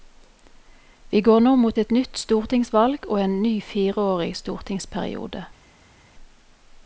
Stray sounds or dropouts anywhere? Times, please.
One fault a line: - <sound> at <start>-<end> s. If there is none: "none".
none